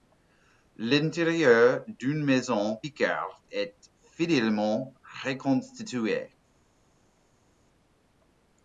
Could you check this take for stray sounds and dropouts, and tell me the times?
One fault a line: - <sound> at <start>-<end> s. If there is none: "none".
none